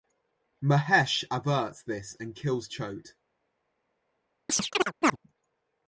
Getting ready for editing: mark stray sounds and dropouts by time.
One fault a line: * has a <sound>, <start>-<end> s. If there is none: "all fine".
* has a chirp, 4.5-5.2 s